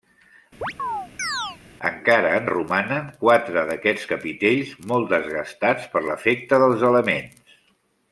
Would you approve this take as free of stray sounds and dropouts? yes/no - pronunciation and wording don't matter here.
no